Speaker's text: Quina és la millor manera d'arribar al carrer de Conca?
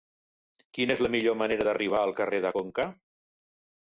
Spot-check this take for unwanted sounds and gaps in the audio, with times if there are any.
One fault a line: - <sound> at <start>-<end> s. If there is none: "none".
none